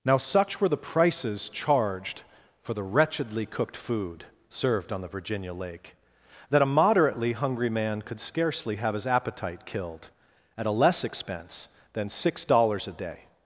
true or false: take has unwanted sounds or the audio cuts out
false